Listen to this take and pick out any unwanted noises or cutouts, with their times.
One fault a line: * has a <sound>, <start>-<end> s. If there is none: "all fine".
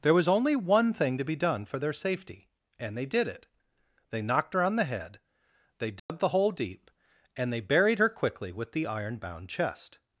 * has a dropout, 6.0-6.1 s